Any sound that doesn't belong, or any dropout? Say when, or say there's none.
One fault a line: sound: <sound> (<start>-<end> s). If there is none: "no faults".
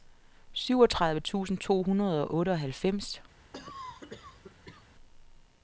sound: cough (3.5-4.9 s)